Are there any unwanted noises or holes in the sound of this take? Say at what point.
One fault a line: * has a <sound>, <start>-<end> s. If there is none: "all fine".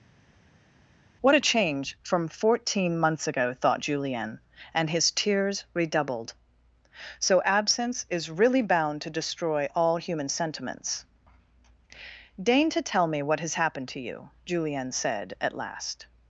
all fine